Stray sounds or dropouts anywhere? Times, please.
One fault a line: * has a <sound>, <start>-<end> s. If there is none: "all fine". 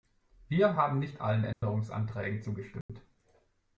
* has a dropout, 1.5-1.6 s
* has a dropout, 2.8-2.9 s